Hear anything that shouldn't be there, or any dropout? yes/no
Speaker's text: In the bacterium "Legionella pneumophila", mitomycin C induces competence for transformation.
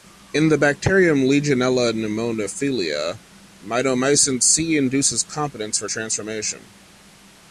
no